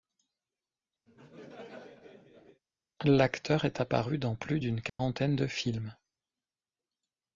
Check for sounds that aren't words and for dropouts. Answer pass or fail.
fail